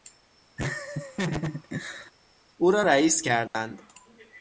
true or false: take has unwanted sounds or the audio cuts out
true